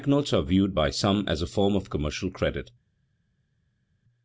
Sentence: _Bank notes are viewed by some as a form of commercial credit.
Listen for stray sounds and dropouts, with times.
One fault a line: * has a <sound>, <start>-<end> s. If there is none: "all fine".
all fine